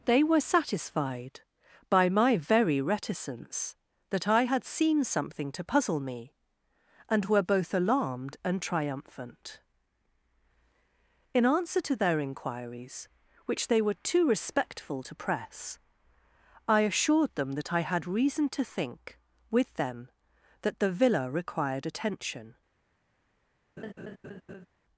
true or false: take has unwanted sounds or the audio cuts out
true